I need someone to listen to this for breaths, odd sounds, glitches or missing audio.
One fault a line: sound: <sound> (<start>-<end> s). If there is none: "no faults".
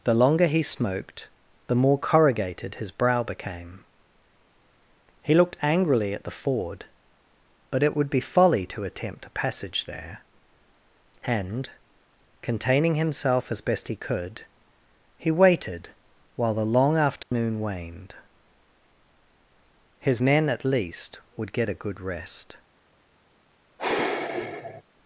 sound: dropout (17.2-17.3 s)
sound: sigh (23.8-24.8 s)